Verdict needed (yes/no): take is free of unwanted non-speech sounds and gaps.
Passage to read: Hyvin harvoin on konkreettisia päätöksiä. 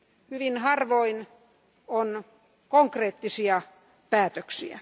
yes